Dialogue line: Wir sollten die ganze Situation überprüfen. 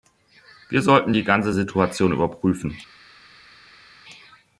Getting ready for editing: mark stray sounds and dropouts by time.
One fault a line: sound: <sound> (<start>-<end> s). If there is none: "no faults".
no faults